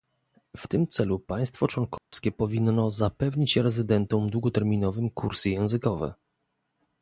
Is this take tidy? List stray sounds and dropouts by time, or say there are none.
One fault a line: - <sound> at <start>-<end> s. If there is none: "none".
- dropout at 2.0-2.1 s